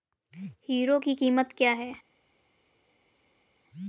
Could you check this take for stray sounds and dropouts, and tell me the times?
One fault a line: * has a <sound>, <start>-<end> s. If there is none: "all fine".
all fine